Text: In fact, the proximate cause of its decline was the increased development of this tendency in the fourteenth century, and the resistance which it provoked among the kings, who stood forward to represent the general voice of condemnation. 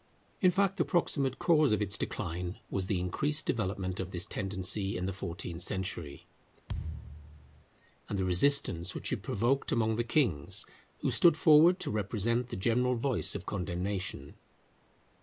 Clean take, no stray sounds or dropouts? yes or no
no